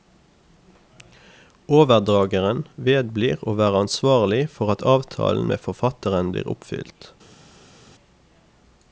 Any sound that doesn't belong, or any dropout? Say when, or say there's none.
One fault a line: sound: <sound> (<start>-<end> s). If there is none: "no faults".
no faults